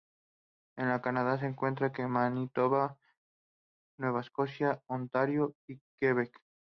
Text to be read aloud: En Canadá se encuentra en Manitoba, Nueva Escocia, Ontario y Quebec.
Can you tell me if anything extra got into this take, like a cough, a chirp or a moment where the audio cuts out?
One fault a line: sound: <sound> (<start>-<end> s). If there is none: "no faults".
no faults